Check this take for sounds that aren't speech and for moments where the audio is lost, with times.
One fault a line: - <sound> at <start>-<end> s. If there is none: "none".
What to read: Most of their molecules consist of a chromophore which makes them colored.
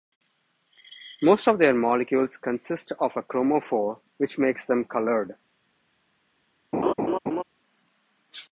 - laugh at 6.7-7.4 s